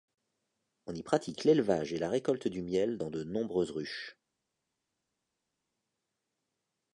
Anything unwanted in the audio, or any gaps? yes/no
no